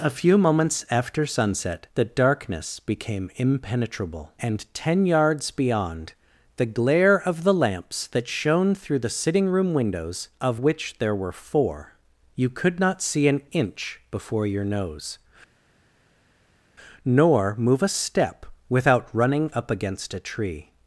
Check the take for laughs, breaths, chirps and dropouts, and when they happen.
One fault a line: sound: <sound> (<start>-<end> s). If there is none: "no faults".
no faults